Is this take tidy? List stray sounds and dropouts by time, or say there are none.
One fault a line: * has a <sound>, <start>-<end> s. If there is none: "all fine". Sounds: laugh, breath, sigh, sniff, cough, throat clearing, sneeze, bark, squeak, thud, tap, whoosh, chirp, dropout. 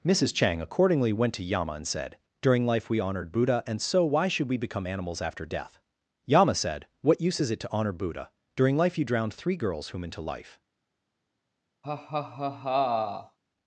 * has a laugh, 11.8-13.4 s